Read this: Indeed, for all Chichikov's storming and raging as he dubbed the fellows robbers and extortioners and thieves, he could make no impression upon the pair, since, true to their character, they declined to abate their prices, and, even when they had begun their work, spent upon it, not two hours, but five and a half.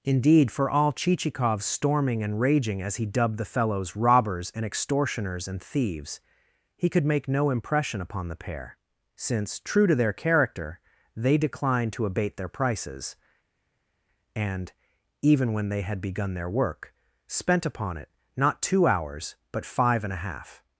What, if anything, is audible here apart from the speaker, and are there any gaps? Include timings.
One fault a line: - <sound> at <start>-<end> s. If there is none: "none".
none